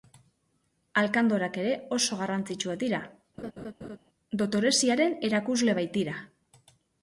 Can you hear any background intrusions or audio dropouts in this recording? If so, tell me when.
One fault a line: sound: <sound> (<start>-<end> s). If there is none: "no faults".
sound: laugh (3.4-4.0 s)